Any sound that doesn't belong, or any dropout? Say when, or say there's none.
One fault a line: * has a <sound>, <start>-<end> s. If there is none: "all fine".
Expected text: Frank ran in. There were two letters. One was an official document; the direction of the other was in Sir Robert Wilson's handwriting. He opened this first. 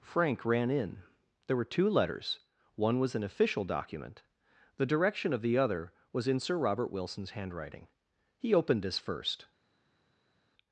all fine